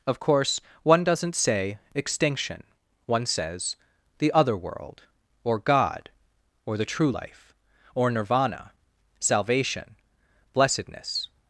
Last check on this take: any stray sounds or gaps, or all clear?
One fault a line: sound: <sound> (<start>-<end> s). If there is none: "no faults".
no faults